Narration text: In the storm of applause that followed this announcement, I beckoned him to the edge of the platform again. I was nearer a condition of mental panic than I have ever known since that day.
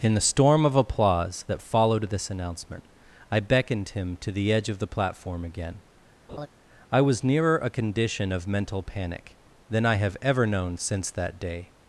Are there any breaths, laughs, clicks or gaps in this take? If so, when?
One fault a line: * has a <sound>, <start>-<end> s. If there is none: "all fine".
* has a laugh, 6.3-6.5 s